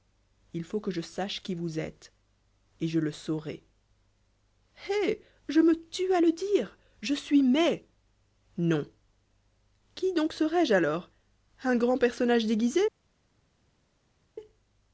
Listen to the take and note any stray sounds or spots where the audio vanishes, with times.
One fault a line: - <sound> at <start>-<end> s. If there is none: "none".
none